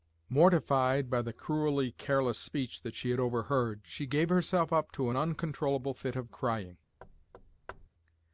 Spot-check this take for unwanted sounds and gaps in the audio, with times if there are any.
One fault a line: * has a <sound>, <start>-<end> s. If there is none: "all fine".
* has a thud, 7.0-7.9 s